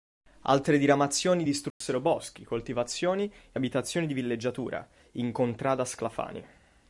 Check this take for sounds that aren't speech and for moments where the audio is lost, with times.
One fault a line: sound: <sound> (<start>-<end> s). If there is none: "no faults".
sound: dropout (1.7-1.8 s)